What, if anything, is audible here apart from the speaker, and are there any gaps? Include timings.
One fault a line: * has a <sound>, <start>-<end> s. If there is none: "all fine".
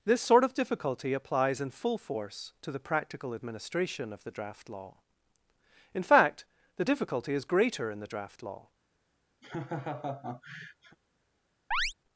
* has a laugh, 9.4-11.0 s
* has a chirp, 11.7-11.9 s